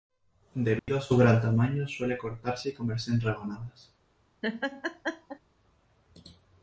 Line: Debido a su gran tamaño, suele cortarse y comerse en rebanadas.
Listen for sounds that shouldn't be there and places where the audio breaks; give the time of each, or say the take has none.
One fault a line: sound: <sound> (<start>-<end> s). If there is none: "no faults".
sound: dropout (0.8-0.9 s)
sound: laugh (4.4-5.4 s)